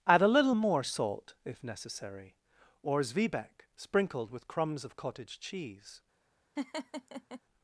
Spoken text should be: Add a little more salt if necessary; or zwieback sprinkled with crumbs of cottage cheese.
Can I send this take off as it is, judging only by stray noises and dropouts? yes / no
no